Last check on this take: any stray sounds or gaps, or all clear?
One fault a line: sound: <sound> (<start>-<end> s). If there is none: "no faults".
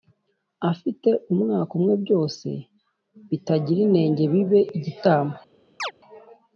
sound: chirp (5.8-5.9 s)